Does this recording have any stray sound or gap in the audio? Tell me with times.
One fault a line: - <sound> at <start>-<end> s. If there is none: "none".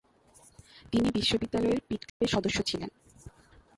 - dropout at 2.1-2.2 s